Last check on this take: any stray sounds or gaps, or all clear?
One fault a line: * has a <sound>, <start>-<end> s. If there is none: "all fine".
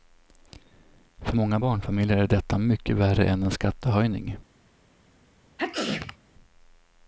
* has a sneeze, 5.6-6.2 s